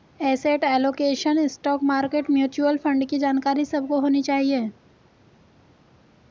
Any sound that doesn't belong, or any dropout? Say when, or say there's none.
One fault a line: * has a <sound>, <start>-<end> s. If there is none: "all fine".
all fine